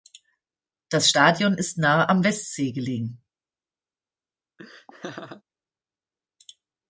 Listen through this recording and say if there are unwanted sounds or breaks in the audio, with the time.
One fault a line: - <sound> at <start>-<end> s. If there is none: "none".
- laugh at 4.6-5.4 s